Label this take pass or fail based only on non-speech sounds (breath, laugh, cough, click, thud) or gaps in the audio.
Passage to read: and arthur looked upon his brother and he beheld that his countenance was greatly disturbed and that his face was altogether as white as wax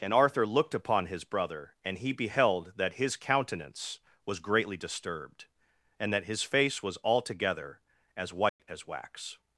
fail